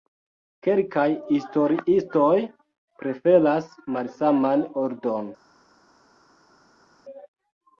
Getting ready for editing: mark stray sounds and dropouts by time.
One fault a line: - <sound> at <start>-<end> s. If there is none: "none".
none